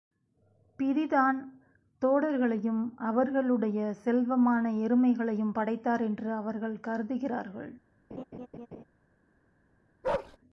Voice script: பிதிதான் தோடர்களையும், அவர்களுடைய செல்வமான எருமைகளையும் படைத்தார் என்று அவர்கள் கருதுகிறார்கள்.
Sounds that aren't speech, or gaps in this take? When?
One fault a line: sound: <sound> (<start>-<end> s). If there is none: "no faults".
sound: laugh (8.1-8.8 s)
sound: bark (10.0-10.4 s)